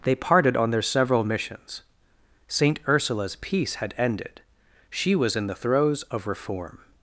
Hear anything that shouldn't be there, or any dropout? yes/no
no